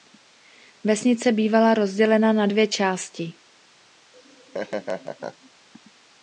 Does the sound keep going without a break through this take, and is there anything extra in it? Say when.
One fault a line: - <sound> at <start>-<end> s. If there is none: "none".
- laugh at 4.1-5.5 s